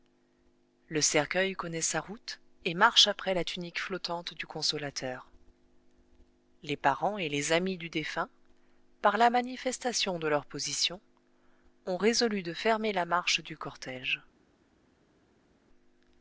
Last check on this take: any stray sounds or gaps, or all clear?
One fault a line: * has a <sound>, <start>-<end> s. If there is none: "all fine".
all fine